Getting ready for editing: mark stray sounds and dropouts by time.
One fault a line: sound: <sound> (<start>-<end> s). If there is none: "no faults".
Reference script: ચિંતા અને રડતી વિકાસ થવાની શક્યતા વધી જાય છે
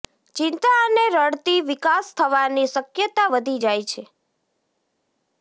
no faults